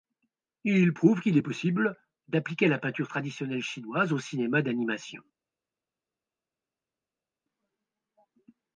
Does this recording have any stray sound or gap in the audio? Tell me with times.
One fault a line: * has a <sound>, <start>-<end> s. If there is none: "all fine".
all fine